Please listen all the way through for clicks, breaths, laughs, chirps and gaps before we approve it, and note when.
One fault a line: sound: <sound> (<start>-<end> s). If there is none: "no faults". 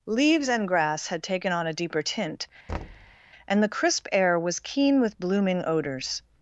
sound: thud (2.7-3.2 s)